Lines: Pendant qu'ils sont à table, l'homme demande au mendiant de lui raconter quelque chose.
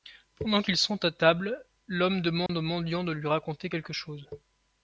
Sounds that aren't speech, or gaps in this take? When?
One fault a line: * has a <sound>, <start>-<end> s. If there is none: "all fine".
* has a dropout, 2.5-2.5 s